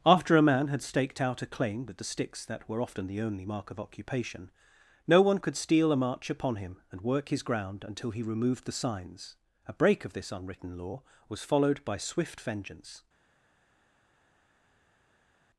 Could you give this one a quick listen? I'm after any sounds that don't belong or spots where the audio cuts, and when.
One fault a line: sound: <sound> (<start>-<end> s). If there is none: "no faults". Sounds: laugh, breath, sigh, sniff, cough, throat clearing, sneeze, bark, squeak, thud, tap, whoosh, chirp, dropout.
no faults